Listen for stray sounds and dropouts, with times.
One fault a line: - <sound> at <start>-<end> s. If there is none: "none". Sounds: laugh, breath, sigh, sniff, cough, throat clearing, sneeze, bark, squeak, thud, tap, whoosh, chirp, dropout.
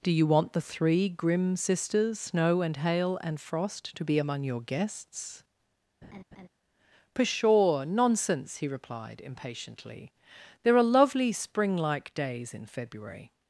- laugh at 6.0-6.5 s